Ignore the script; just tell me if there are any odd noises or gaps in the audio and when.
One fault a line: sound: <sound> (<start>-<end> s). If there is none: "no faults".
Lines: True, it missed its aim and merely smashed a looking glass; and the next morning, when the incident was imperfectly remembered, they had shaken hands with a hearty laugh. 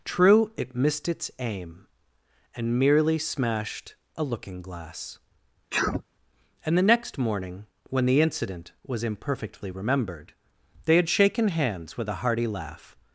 sound: sneeze (5.7-6.0 s)